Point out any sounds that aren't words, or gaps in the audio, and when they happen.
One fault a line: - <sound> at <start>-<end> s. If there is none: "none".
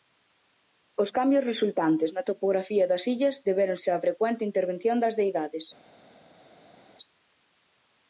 none